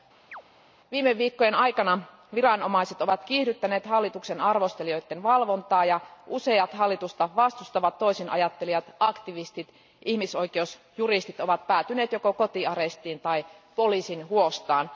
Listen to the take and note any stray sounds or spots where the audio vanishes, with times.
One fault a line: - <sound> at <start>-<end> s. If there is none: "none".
- chirp at 0.3-0.4 s